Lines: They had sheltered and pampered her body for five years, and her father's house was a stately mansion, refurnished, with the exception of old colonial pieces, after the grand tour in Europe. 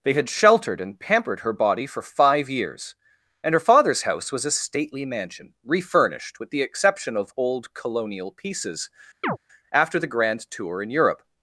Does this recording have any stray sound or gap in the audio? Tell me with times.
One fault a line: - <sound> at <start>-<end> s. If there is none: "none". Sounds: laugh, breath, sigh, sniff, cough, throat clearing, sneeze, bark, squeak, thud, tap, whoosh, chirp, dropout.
- chirp at 9.2-9.4 s